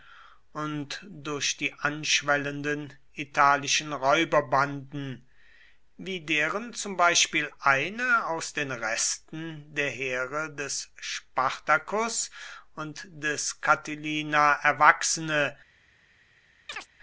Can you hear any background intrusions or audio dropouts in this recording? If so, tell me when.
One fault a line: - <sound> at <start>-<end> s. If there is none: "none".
- chirp at 16.7-16.9 s